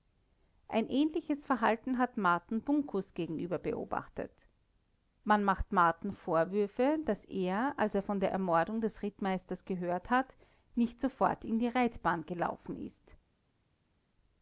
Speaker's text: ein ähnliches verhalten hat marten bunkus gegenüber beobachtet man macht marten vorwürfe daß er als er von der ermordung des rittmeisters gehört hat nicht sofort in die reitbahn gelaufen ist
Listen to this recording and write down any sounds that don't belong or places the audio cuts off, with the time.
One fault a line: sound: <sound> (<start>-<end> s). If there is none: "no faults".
no faults